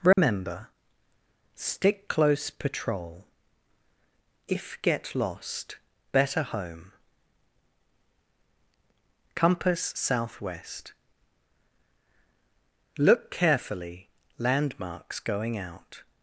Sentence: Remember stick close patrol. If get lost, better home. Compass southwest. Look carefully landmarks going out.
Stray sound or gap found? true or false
true